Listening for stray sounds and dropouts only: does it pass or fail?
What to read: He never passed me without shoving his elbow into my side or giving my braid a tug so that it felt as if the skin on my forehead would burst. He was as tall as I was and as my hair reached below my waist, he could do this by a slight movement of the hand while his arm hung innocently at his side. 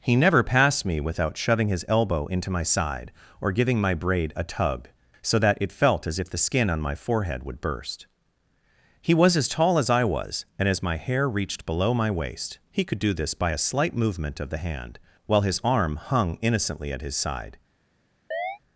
fail